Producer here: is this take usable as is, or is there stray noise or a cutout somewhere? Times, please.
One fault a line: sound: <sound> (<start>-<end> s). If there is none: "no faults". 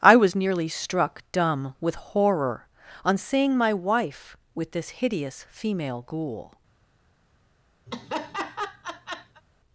sound: laugh (7.9-9.4 s)